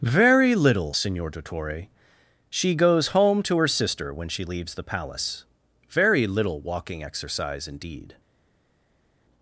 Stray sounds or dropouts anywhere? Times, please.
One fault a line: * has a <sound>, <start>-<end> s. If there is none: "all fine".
all fine